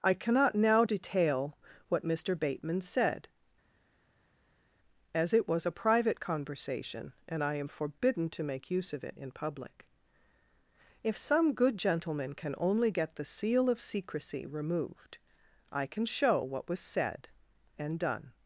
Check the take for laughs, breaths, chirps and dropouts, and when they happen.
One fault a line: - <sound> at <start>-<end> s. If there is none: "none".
none